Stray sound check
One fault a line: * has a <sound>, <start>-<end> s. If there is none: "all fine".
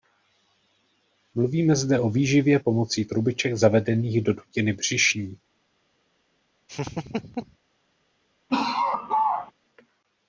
* has a laugh, 6.7-7.6 s
* has a laugh, 8.5-9.5 s